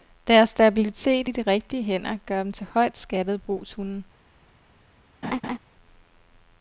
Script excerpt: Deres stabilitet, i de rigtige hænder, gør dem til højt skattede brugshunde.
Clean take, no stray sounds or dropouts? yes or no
no